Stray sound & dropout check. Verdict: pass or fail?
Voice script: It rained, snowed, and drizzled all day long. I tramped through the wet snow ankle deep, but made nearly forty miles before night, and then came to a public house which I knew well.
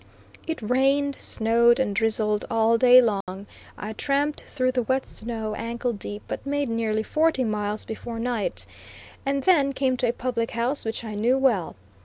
fail